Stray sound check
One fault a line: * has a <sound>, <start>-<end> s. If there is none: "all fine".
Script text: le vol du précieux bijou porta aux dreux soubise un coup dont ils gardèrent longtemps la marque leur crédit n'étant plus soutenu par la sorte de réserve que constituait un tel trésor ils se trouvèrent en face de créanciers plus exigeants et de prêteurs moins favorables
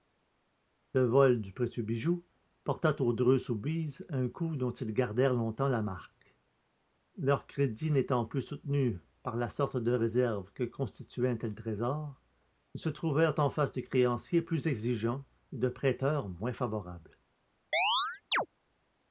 * has a chirp, 17.7-18.5 s